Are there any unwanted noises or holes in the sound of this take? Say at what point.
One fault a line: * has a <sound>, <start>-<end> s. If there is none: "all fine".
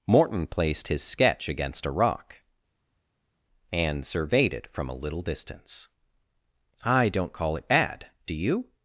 all fine